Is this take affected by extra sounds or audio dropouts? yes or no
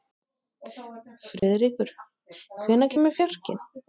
yes